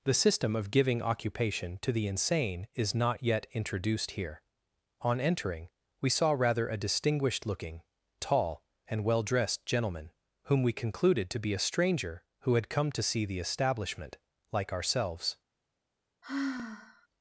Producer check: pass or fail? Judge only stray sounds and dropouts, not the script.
fail